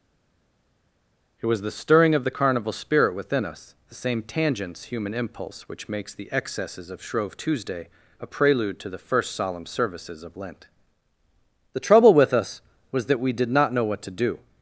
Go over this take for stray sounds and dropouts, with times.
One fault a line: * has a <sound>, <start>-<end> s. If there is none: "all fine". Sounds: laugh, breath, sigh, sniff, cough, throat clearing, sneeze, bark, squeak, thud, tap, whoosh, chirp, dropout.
all fine